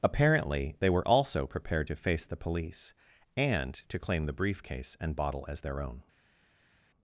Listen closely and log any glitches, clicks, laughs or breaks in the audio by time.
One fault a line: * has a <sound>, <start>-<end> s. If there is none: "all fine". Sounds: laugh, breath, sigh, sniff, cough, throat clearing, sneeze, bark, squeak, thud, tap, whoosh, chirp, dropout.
all fine